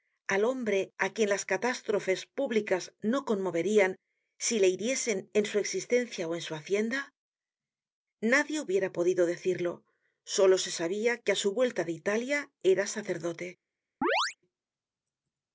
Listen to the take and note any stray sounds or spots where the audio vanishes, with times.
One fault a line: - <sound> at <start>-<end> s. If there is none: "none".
- chirp at 14.0-14.4 s